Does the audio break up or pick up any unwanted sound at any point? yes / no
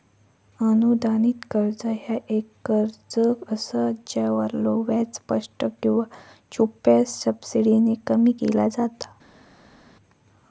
no